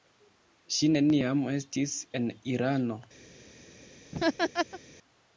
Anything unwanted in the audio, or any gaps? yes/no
yes